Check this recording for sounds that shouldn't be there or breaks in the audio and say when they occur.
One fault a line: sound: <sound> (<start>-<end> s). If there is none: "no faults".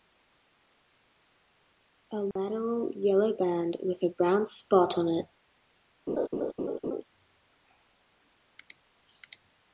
sound: dropout (2.3-2.4 s)
sound: laugh (6.1-7.0 s)